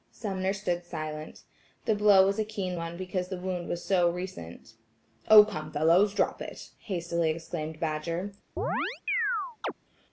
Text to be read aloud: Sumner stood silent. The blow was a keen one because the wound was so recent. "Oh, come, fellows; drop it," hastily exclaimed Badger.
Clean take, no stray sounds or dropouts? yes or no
no